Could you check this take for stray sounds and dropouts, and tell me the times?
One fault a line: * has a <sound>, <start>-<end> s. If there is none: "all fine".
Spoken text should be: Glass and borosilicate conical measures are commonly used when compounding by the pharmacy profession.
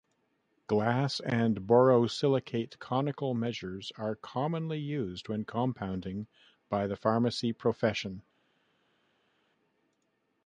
all fine